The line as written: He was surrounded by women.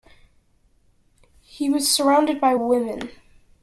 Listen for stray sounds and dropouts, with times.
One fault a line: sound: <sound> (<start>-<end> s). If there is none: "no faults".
no faults